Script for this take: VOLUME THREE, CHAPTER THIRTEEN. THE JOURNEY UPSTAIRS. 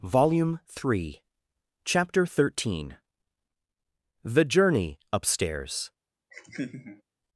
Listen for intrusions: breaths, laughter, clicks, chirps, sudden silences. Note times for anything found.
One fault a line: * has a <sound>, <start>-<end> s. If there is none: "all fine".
* has a laugh, 6.3-7.0 s